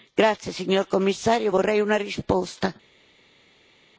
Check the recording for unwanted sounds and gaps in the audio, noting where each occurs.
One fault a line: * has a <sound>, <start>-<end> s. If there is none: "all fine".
all fine